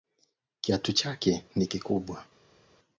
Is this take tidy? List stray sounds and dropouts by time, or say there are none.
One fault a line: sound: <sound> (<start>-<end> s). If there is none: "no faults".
no faults